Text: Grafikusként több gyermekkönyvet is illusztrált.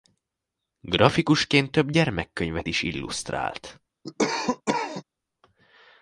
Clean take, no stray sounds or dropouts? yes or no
no